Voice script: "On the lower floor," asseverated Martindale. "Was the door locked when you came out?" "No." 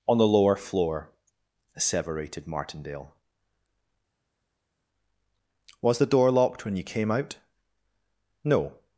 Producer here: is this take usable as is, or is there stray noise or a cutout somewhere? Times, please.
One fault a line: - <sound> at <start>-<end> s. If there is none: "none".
none